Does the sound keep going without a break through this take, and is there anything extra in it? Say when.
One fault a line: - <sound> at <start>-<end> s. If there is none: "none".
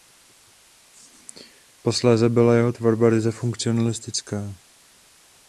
none